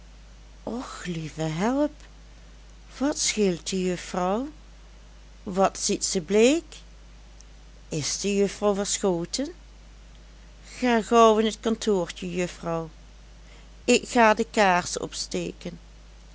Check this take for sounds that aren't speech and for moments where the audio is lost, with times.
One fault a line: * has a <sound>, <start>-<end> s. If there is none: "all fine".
all fine